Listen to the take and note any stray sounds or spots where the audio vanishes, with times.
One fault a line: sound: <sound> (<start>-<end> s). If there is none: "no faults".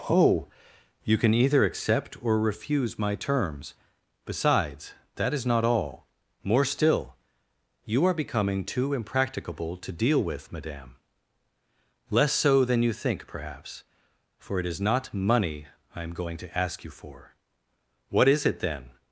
no faults